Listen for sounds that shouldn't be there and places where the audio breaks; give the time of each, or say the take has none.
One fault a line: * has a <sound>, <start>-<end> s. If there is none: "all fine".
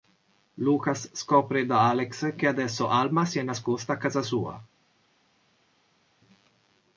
all fine